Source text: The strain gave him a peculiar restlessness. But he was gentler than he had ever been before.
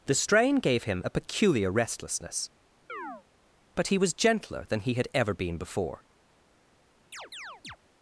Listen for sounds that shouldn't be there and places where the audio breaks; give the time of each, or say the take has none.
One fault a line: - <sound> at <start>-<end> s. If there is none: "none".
- chirp at 2.9-3.2 s
- chirp at 7.1-7.8 s